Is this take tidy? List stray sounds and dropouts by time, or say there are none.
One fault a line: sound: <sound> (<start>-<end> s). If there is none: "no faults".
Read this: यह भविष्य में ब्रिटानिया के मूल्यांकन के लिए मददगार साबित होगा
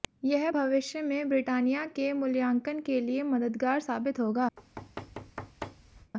sound: thud (4.6-6.1 s)